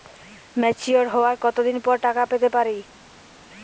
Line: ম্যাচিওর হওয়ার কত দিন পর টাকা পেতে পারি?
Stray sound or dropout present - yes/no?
no